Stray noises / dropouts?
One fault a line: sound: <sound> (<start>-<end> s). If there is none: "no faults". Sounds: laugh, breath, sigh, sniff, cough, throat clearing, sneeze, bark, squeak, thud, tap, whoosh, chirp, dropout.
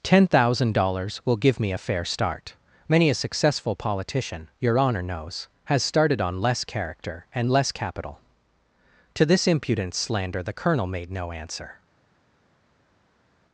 no faults